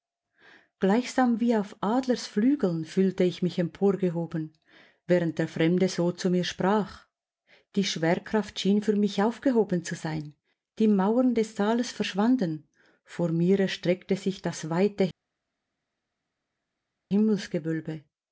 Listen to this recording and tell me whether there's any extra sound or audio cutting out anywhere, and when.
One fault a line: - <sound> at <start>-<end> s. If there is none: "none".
none